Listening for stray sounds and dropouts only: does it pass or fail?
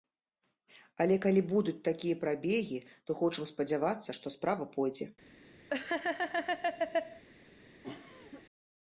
fail